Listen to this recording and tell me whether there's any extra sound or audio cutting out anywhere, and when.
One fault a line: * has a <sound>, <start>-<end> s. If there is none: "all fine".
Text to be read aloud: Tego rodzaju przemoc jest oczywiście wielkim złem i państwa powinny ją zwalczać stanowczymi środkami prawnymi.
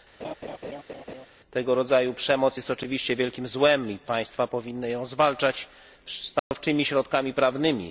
* has a laugh, 0.2-1.3 s
* has a dropout, 6.4-6.5 s